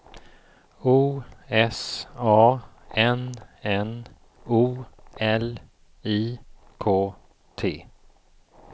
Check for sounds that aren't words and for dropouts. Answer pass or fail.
pass